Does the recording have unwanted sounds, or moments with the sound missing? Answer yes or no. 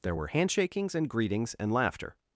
no